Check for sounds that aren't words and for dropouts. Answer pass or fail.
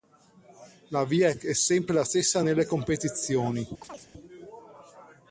fail